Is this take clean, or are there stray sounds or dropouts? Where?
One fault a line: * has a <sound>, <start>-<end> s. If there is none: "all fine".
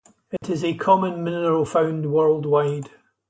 * has a dropout, 0.4-0.4 s